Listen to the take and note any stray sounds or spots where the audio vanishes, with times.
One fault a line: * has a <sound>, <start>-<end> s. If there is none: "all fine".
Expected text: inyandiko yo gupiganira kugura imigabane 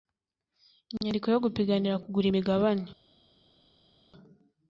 all fine